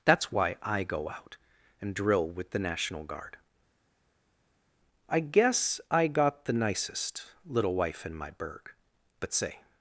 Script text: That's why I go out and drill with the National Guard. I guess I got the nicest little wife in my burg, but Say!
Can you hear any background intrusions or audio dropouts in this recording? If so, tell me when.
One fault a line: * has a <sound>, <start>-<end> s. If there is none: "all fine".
all fine